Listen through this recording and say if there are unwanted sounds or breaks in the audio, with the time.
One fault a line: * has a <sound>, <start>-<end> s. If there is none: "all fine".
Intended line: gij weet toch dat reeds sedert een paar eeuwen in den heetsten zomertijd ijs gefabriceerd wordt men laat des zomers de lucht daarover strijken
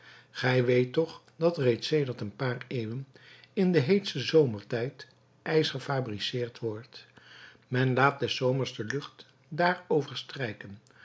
all fine